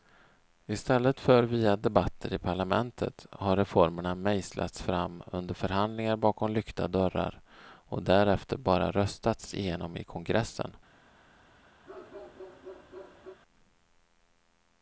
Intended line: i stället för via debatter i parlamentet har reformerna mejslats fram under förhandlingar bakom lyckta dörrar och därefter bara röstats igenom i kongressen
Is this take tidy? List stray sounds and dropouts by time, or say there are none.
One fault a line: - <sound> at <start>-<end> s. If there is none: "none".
- bark at 11.9-13.4 s